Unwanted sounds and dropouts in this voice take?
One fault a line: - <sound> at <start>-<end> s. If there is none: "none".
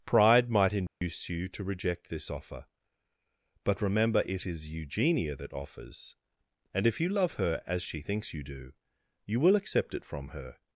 - dropout at 0.9-1.0 s